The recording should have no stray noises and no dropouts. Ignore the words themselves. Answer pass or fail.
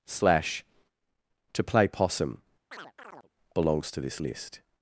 fail